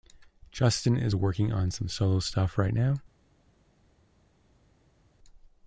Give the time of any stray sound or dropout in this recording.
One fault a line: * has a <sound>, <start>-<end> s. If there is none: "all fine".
all fine